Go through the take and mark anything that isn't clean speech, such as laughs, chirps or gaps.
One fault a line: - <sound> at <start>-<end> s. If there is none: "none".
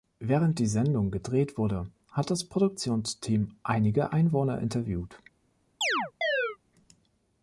- chirp at 5.8-6.6 s